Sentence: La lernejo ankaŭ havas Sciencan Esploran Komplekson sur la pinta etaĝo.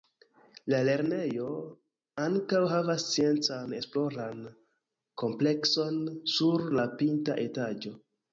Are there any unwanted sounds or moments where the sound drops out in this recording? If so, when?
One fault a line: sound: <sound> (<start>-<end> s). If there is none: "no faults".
no faults